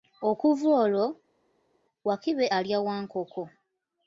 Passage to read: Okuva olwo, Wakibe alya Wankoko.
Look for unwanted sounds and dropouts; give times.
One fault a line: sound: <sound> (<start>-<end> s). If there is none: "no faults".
no faults